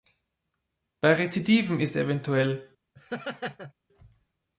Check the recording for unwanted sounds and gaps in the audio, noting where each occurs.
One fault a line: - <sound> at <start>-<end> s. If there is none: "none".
- laugh at 3.0-3.7 s